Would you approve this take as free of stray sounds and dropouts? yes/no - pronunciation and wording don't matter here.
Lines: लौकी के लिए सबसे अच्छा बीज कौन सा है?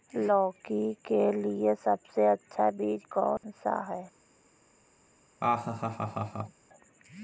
no